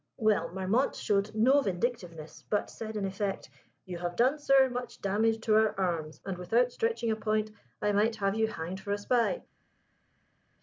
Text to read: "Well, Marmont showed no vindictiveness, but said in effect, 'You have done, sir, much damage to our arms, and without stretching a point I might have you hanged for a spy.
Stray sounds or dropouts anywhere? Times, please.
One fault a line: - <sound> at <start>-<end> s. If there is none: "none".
none